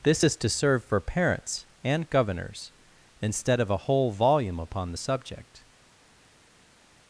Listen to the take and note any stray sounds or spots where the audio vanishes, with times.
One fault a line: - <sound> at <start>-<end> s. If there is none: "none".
none